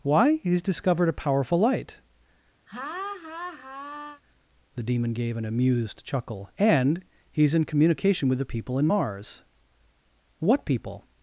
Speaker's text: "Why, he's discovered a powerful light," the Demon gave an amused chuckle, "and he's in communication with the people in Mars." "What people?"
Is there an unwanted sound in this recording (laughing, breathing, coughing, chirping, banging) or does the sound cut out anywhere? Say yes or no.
yes